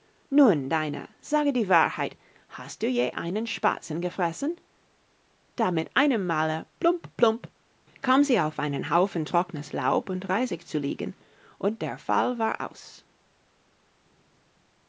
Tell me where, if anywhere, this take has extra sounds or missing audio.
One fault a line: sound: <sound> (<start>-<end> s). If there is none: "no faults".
no faults